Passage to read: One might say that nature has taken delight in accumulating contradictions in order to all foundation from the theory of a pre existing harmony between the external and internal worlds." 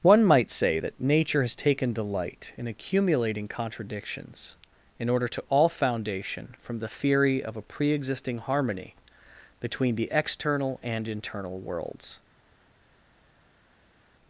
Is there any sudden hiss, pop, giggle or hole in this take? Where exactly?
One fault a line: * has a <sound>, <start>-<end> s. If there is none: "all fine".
all fine